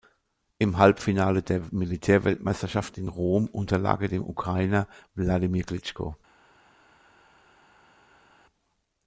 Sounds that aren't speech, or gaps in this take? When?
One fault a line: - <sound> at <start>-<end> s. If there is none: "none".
none